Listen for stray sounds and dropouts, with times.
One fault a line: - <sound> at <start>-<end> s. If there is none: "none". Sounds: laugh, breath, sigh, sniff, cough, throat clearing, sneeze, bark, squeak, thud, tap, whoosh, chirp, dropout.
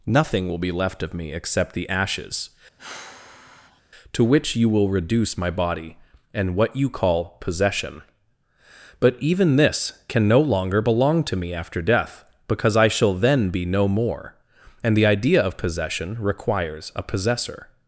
- sigh at 2.8-3.8 s